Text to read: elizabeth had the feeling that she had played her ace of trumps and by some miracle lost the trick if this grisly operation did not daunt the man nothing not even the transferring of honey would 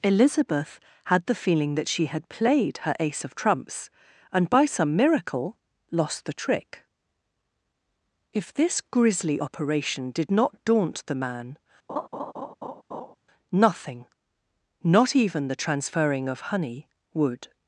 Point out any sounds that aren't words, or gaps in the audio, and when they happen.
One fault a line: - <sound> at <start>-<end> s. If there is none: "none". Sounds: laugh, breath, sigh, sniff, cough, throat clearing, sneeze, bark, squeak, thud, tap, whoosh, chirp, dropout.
- laugh at 11.9-13.2 s